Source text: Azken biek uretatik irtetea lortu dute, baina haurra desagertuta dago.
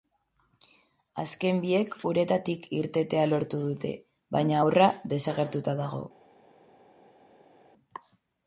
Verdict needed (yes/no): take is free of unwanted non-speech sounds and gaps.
yes